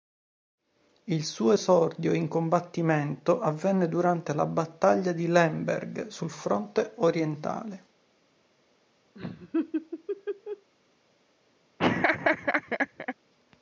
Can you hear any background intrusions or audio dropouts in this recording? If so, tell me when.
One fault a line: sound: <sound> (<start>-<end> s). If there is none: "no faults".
sound: laugh (9.1-10.7 s)
sound: laugh (11.8-13.1 s)